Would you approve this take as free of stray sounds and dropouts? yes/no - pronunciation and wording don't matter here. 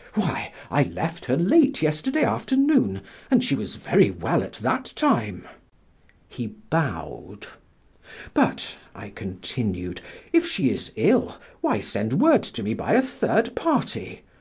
yes